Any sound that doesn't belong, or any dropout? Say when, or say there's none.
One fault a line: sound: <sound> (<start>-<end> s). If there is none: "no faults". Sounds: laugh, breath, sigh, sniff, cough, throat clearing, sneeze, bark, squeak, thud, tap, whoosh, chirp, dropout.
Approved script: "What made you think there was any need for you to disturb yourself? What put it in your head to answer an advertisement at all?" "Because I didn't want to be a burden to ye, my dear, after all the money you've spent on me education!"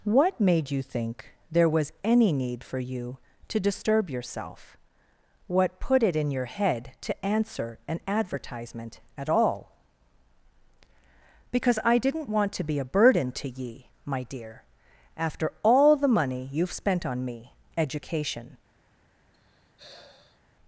sound: sigh (19.3-20.4 s)